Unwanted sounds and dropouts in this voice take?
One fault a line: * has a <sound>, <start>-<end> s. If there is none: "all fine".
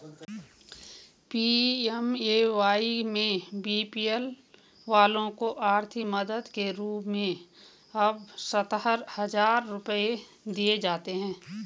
all fine